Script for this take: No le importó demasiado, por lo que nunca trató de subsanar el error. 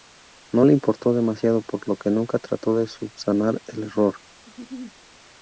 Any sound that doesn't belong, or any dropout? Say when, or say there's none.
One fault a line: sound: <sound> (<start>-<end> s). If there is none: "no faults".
sound: laugh (4.4-5.0 s)